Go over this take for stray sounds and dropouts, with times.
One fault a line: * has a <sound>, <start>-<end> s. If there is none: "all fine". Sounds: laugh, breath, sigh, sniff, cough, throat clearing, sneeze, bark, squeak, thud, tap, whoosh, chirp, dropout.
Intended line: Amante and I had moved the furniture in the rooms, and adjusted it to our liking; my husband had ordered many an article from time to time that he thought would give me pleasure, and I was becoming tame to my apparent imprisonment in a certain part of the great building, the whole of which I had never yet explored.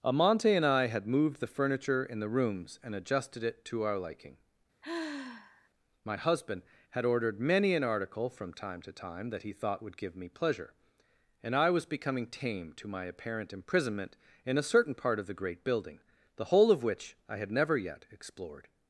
* has a sigh, 4.8-5.7 s